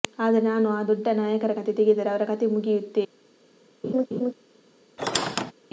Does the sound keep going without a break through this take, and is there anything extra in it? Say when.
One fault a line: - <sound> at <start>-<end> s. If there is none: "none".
- laugh at 3.8-4.3 s
- squeak at 5.0-5.5 s